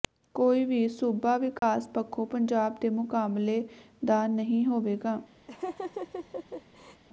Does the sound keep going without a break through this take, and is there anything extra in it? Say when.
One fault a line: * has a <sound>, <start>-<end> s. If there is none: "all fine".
* has a dropout, 1.6-1.6 s
* has a laugh, 5.5-7.0 s